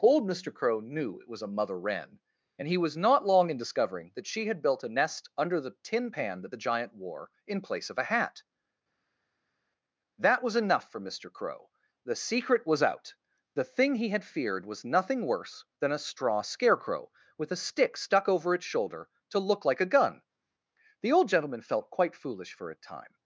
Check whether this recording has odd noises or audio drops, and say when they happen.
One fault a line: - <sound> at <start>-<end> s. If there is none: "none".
none